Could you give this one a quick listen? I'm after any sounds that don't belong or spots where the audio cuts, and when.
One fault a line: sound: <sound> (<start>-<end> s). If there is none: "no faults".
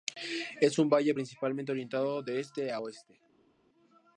no faults